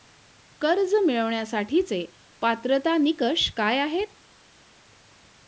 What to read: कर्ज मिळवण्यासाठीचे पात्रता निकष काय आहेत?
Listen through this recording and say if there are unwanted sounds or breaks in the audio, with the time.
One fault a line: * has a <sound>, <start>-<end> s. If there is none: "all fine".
all fine